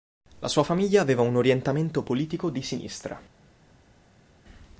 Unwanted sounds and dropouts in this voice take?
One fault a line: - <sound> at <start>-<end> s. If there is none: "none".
none